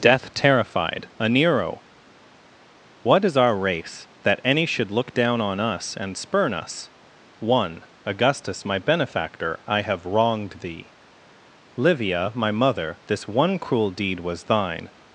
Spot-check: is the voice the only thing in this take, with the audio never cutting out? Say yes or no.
yes